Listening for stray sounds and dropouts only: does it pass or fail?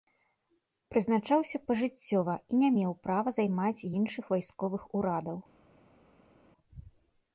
pass